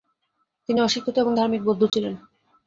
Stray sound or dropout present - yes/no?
yes